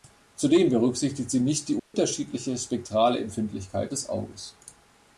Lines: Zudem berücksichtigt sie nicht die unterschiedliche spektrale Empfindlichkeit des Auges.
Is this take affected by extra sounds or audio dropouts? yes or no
yes